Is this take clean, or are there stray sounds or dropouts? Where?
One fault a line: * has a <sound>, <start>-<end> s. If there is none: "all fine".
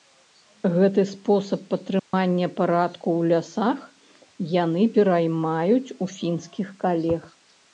* has a dropout, 2.0-2.1 s